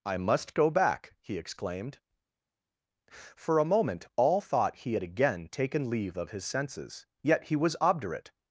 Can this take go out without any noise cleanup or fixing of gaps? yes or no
yes